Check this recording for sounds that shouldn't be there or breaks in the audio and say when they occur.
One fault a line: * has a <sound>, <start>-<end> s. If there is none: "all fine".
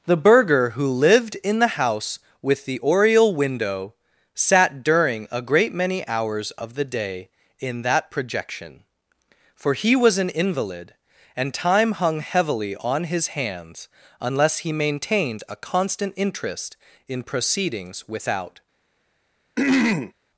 * has a throat clearing, 19.6-20.1 s